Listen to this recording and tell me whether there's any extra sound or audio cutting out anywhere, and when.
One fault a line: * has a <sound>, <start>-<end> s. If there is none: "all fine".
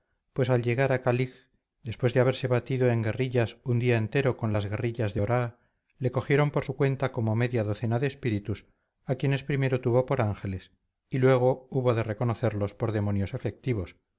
all fine